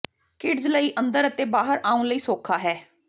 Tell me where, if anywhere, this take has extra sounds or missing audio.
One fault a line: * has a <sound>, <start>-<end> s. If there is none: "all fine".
all fine